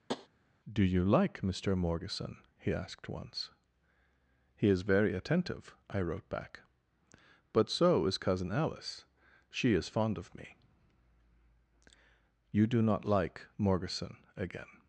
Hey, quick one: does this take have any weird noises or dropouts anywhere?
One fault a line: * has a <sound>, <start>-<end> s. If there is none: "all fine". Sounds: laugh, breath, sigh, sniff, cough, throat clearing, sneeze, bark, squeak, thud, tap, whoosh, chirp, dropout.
* has a tap, 0.1-0.3 s